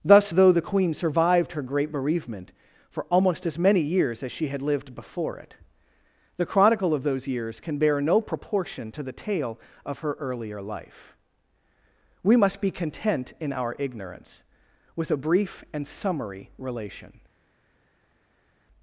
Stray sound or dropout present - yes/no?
no